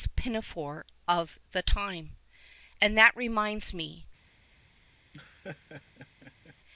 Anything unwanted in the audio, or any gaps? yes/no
yes